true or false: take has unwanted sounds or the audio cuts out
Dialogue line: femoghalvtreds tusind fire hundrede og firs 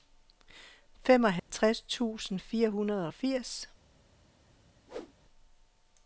true